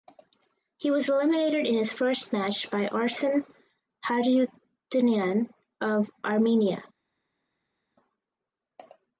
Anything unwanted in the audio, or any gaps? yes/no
no